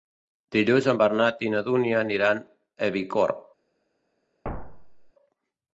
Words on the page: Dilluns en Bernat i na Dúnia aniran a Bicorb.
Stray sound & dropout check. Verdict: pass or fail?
fail